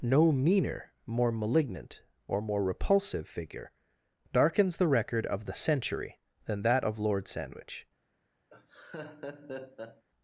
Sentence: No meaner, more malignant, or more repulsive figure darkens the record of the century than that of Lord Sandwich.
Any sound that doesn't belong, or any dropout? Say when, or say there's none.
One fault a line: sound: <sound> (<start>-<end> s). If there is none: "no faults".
sound: laugh (8.5-10.0 s)